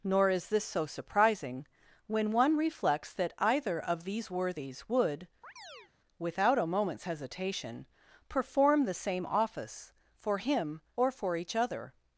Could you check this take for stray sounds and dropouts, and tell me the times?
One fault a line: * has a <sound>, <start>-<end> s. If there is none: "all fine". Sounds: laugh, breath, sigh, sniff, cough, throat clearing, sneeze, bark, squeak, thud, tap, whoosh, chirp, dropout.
* has a chirp, 5.4-5.9 s